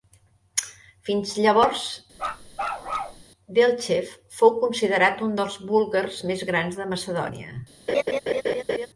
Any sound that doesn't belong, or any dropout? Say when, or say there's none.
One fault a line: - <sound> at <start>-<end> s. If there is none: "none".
- bark at 2.1-3.2 s
- laugh at 7.9-8.9 s